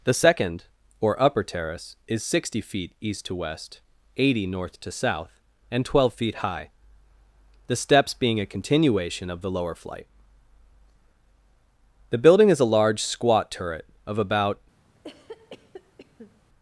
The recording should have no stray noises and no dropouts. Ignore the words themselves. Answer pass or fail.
fail